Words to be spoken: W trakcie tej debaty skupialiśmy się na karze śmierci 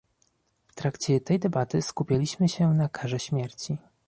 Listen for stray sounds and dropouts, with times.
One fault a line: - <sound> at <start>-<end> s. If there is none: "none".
none